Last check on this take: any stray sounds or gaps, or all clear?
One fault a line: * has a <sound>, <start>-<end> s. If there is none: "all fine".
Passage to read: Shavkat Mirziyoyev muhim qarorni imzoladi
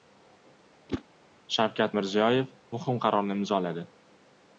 * has a whoosh, 0.9-1.0 s